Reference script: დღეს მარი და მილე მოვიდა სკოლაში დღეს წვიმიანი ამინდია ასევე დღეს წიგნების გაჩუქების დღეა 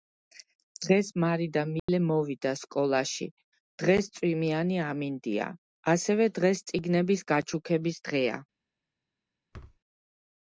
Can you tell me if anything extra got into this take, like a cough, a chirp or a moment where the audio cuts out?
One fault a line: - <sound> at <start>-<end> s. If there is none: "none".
- dropout at 1.8-1.9 s
- thud at 9.5-9.8 s